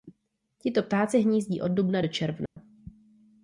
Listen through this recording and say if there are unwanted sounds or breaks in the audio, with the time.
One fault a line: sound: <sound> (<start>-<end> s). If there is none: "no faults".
sound: dropout (2.5-2.6 s)